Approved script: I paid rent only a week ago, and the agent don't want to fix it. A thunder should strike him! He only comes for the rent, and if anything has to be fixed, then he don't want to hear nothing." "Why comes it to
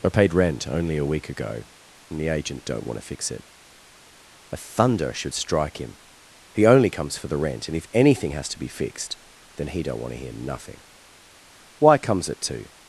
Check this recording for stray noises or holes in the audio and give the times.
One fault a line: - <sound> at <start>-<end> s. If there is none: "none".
none